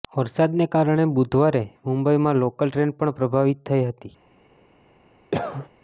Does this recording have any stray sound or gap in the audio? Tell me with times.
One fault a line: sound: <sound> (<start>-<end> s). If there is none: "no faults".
sound: cough (5.3-5.7 s)